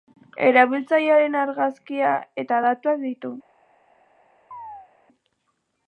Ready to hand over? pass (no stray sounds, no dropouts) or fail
fail